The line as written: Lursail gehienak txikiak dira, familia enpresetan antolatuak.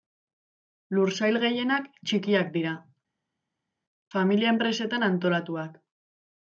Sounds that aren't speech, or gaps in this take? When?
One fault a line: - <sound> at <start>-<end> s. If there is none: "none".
none